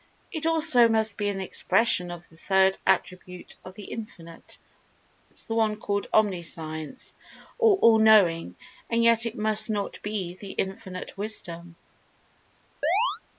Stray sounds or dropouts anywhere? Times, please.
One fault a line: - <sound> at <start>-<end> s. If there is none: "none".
- chirp at 12.8-13.2 s